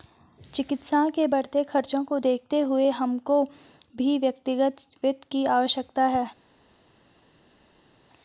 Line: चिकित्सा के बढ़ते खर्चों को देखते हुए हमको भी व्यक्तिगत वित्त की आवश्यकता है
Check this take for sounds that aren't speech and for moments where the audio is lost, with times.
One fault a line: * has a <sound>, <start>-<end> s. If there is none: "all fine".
all fine